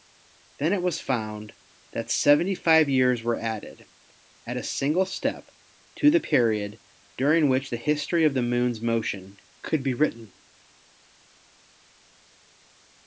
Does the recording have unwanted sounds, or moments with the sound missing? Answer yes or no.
no